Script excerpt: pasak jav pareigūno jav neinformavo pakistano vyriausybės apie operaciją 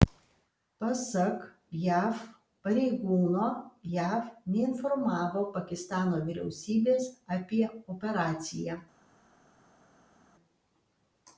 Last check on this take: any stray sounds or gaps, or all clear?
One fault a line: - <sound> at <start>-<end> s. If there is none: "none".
none